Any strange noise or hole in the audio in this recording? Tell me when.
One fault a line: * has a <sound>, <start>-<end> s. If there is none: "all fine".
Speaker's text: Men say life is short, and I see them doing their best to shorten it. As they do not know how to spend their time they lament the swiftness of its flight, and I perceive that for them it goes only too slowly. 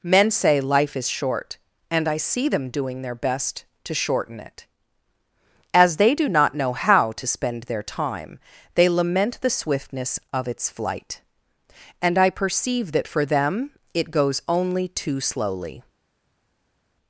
all fine